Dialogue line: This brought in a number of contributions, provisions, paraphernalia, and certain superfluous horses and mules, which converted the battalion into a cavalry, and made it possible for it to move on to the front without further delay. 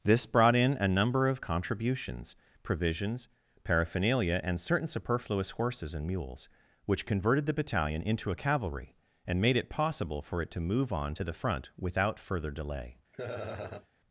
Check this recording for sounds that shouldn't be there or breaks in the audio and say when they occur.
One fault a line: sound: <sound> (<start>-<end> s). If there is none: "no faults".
sound: laugh (13.1-13.9 s)